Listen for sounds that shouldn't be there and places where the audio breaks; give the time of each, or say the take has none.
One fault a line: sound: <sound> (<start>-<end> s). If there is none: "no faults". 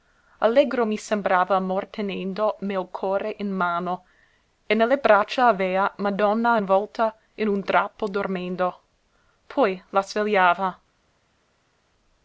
no faults